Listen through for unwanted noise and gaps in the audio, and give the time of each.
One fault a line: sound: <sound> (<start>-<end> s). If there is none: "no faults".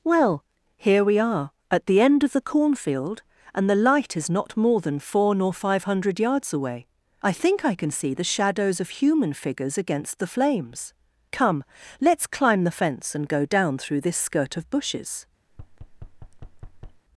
sound: thud (15.5-17.0 s)